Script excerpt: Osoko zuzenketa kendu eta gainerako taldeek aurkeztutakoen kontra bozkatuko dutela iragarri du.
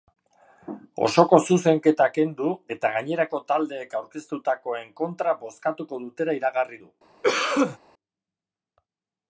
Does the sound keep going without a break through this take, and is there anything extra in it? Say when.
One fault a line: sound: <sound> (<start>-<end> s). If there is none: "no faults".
sound: cough (7.2-7.8 s)